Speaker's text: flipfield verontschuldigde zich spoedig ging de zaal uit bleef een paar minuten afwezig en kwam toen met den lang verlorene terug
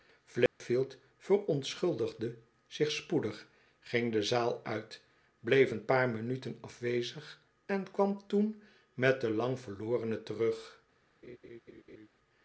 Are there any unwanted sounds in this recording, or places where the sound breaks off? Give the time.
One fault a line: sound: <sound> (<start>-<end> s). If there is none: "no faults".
sound: dropout (0.5-0.6 s)
sound: laugh (11.2-12.1 s)